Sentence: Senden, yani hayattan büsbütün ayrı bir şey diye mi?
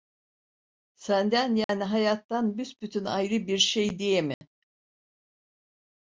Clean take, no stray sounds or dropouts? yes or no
no